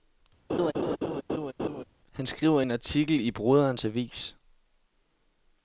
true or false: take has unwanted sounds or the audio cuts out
true